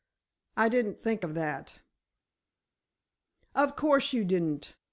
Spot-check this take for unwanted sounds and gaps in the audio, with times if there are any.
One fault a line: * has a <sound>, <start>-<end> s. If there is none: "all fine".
all fine